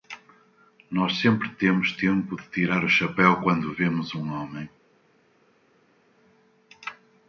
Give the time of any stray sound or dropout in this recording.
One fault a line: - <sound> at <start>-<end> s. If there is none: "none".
none